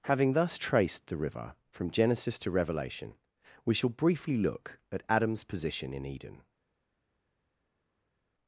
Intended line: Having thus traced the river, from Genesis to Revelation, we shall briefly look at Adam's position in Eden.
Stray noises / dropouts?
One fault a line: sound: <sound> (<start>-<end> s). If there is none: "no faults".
no faults